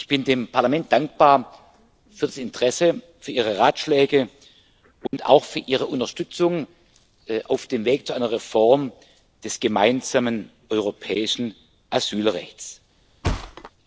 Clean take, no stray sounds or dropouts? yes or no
no